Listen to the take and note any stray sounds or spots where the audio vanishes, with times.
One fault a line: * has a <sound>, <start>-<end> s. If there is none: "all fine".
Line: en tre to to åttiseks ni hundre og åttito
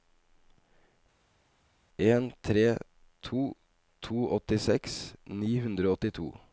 all fine